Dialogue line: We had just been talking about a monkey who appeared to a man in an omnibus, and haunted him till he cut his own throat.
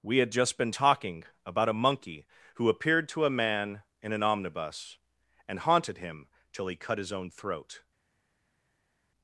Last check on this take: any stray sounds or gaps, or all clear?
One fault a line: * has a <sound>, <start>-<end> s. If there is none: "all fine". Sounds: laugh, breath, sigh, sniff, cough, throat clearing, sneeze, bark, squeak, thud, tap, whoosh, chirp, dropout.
all fine